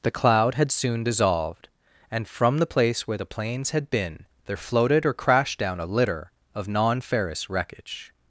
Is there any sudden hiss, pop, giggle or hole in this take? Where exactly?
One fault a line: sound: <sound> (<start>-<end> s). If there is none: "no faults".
no faults